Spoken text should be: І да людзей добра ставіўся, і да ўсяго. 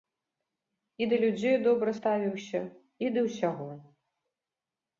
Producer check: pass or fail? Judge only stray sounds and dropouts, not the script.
pass